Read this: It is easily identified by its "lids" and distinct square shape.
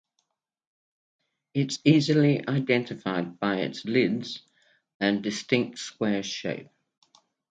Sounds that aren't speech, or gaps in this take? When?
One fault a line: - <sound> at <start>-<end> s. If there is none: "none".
none